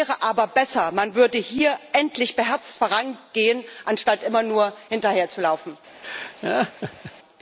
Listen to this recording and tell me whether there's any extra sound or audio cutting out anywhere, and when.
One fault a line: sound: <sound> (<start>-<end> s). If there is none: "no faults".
sound: laugh (6.0-7.1 s)